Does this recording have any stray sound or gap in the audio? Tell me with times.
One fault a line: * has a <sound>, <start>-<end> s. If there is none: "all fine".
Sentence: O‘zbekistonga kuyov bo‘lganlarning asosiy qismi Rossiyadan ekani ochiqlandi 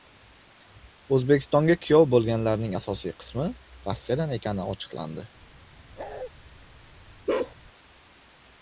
* has a bark, 6.0-6.3 s
* has a bark, 7.3-7.6 s